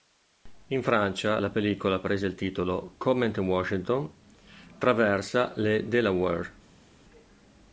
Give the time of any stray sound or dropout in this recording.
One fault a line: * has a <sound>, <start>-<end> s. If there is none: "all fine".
all fine